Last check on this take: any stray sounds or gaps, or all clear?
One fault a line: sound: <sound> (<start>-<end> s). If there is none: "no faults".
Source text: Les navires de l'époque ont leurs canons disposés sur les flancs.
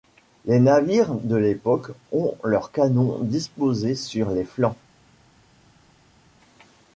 no faults